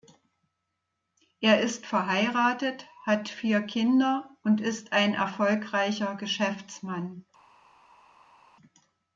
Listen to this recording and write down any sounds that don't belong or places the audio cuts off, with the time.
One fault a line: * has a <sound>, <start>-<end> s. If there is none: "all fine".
all fine